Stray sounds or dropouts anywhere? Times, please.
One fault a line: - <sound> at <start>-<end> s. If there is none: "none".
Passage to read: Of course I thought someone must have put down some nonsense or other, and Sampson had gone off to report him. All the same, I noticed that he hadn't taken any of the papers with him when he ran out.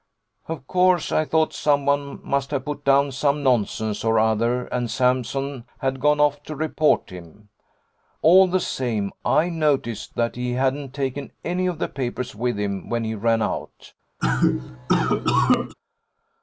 - cough at 14.2-15.7 s